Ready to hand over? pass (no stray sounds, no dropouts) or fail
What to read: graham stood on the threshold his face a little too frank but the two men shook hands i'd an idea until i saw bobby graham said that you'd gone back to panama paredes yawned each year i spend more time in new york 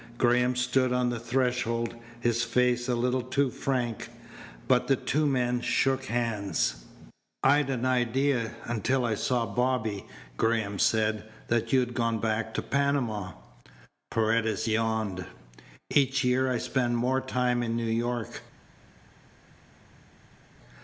pass